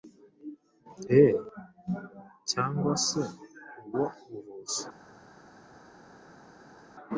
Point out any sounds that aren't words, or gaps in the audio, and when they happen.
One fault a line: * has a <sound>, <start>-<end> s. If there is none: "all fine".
all fine